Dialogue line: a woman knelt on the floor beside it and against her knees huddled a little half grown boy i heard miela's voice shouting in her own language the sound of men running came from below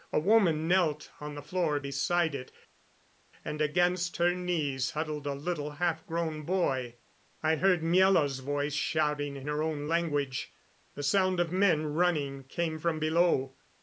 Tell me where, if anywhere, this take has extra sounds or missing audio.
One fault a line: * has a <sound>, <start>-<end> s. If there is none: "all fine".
all fine